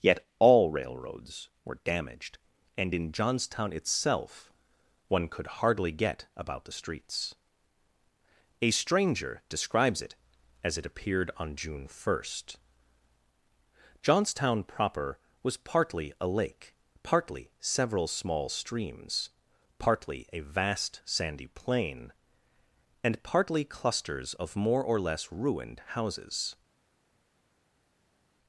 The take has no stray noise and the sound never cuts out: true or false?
true